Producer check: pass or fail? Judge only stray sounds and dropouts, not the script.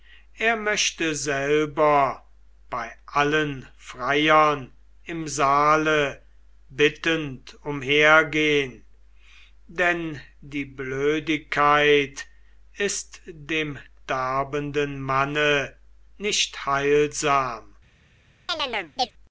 fail